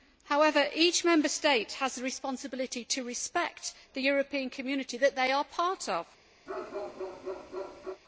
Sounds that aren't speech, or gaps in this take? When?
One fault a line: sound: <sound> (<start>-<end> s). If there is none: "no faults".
sound: bark (6.5-8.0 s)